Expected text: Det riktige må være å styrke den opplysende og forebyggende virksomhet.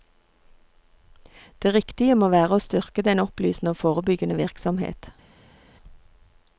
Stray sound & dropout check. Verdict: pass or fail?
pass